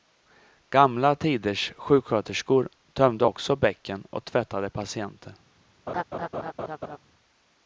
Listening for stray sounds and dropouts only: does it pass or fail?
fail